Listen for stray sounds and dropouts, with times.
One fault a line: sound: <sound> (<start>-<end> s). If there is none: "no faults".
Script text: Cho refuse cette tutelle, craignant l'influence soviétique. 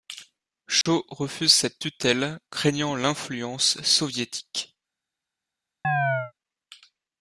sound: dropout (0.8-0.9 s)
sound: chirp (5.8-6.3 s)